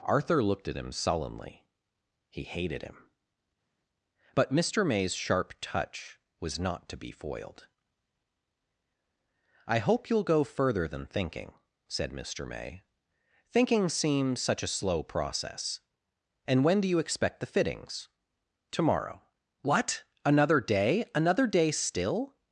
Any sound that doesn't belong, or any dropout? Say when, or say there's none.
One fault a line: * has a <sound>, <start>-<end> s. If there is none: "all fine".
all fine